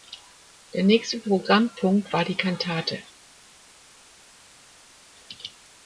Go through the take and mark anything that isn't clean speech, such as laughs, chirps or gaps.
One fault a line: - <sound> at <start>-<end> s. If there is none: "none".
none